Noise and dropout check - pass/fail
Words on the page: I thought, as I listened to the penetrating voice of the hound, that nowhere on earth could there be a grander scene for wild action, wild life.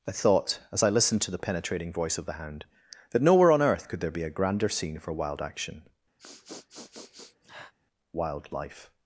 fail